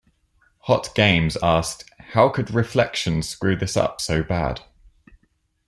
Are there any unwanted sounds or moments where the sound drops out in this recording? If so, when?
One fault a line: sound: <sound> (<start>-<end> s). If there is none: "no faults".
no faults